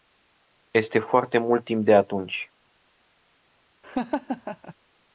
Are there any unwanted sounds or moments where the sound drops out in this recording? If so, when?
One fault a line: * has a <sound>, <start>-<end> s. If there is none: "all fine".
* has a laugh, 3.8-4.7 s